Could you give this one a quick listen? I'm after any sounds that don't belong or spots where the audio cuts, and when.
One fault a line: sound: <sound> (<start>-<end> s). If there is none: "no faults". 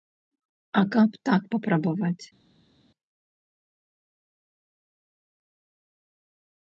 no faults